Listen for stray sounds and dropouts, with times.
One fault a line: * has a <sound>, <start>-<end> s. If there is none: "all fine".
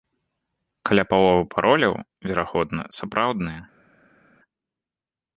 all fine